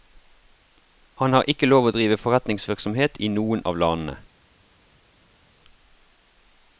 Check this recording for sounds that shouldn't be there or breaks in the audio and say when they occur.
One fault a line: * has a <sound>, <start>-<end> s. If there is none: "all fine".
all fine